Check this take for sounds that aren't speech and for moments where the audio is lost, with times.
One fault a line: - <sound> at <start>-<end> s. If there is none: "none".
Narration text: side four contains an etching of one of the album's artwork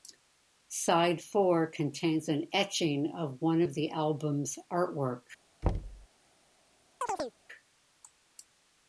- thud at 5.6-6.1 s
- chirp at 7.0-7.3 s